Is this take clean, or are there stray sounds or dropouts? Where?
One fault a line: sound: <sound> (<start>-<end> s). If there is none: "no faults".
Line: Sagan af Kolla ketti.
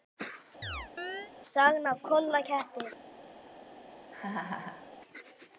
sound: chirp (0.6-1.3 s)
sound: laugh (4.1-4.9 s)